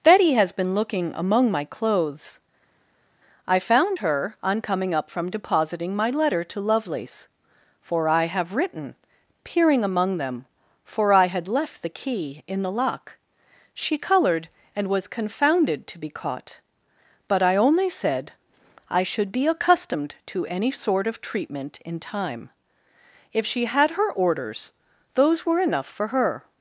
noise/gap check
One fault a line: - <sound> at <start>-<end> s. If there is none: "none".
none